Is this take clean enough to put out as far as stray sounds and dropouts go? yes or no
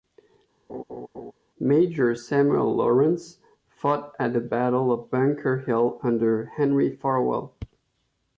no